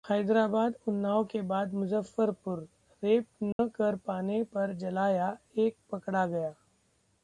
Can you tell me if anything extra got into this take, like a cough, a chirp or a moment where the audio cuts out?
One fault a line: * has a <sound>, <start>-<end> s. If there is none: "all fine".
* has a dropout, 3.5-3.6 s